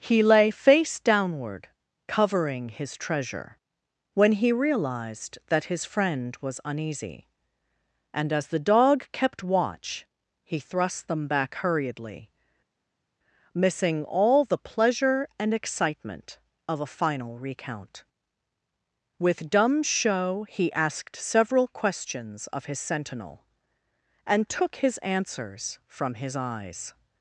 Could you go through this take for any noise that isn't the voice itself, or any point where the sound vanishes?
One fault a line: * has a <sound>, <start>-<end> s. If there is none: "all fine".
all fine